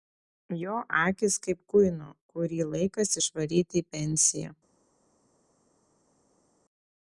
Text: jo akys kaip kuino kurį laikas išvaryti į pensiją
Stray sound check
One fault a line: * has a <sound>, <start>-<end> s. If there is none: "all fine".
all fine